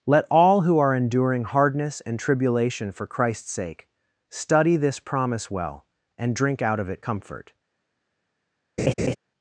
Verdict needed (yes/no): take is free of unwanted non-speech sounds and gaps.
no